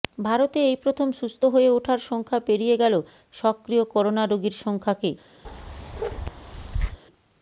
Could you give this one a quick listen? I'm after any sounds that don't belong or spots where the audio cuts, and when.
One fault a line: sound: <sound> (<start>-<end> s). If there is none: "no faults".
sound: bark (5.4-7.0 s)